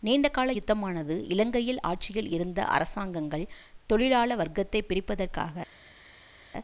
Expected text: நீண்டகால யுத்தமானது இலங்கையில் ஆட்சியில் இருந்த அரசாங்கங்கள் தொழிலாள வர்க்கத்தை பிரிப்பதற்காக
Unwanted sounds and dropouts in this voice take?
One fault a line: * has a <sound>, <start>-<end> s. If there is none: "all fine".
all fine